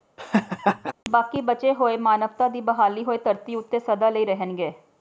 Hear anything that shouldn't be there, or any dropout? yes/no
yes